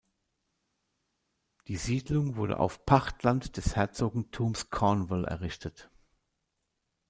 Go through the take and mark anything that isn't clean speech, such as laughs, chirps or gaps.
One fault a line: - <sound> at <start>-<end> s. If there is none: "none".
none